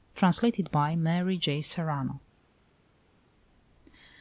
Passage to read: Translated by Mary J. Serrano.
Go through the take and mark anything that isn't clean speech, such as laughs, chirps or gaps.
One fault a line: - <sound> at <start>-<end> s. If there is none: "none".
none